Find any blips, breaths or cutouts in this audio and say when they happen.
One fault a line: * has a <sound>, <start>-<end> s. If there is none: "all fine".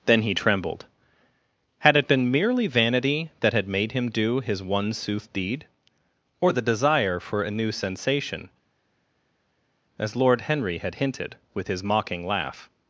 all fine